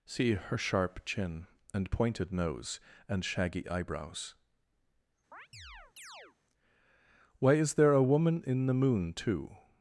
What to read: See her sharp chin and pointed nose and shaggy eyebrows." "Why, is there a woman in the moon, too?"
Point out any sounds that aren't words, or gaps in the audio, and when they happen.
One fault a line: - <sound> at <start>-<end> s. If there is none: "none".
- chirp at 5.3-6.4 s